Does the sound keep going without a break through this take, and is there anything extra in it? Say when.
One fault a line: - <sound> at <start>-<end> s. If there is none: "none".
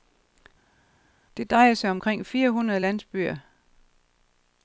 none